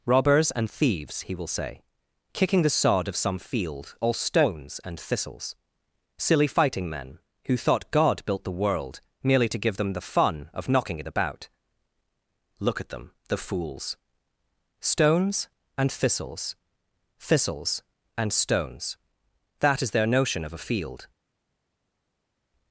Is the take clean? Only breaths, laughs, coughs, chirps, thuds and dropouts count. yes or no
yes